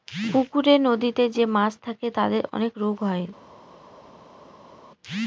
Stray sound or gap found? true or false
false